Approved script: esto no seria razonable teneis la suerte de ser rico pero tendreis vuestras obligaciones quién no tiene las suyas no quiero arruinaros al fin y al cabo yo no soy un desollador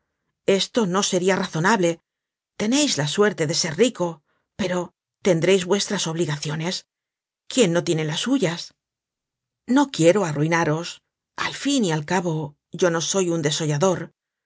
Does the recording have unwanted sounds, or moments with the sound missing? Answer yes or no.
no